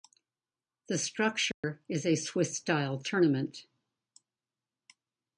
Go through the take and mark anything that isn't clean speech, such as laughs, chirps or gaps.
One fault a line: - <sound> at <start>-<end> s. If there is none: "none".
- dropout at 1.5-1.6 s